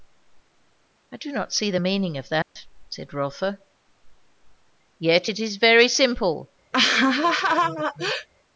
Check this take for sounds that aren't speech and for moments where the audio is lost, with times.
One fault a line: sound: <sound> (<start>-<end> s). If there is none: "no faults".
sound: dropout (2.4-2.6 s)
sound: laugh (6.7-8.3 s)